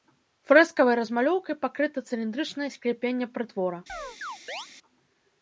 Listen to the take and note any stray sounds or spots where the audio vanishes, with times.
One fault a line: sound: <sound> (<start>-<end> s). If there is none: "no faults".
sound: chirp (3.9-4.7 s)